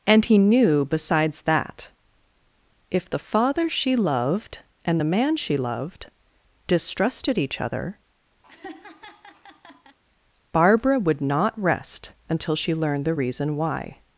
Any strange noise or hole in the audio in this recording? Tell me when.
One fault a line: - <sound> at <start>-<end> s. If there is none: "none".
- laugh at 8.4-10.0 s